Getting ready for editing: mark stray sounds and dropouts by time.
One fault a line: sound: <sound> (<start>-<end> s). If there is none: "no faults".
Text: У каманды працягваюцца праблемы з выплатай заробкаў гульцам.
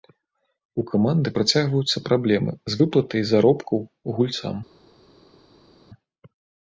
no faults